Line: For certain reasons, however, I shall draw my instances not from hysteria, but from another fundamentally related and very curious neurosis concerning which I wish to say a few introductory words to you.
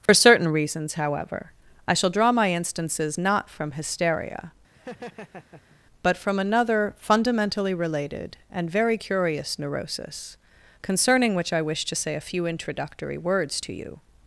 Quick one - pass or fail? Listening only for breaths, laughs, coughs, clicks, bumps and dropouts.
fail